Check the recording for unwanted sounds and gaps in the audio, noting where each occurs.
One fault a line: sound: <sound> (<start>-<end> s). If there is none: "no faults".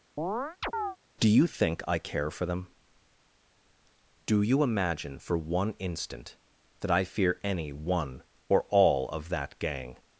sound: chirp (0.2-1.0 s)